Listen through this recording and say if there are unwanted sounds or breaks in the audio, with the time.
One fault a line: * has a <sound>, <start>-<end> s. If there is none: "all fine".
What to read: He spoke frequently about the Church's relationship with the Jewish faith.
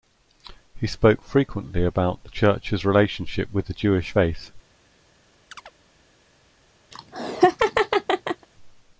* has a chirp, 5.5-5.7 s
* has a laugh, 6.9-8.5 s